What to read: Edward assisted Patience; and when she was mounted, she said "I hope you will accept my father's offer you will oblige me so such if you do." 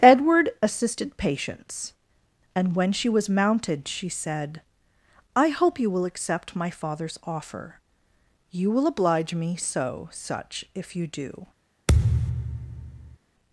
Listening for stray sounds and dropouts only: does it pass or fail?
fail